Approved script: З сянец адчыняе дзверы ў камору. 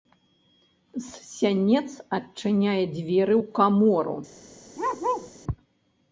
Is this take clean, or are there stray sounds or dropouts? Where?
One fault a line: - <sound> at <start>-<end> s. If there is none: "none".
- bark at 4.8-5.3 s